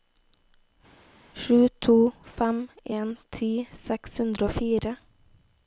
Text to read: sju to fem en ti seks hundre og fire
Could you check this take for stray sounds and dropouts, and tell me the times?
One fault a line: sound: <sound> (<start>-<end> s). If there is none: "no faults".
no faults